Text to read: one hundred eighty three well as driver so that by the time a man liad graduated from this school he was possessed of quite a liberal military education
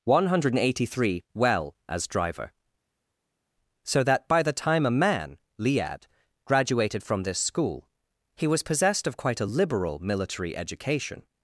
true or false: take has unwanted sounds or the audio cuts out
false